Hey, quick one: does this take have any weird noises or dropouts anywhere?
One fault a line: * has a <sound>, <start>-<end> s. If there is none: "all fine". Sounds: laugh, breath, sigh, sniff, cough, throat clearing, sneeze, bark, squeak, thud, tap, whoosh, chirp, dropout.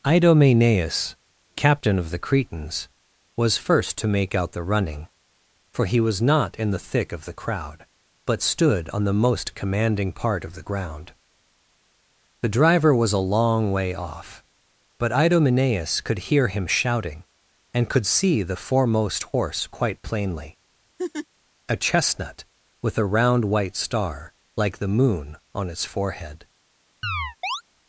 * has a laugh, 21.0-21.3 s
* has a chirp, 27.0-27.6 s